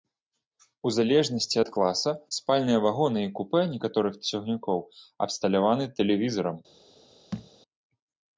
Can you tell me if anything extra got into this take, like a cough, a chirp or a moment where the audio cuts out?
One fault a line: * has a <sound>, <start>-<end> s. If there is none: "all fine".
* has a thud, 7.3-7.5 s